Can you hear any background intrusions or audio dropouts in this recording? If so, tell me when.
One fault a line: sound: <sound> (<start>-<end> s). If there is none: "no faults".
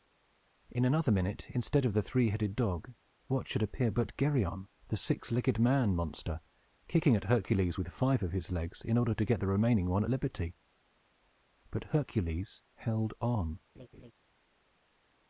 sound: laugh (13.7-14.1 s)